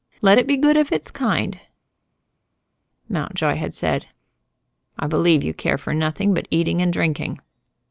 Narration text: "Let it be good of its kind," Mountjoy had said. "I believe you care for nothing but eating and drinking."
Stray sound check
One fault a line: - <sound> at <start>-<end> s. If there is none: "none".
none